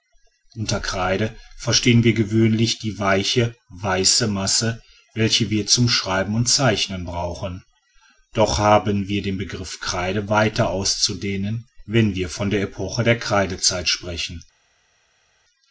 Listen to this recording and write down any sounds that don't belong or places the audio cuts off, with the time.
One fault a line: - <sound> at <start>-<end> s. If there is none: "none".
none